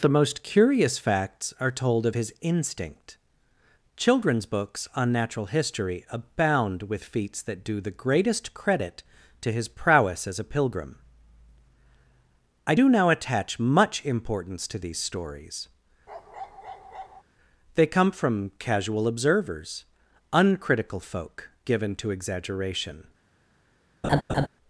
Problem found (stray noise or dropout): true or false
true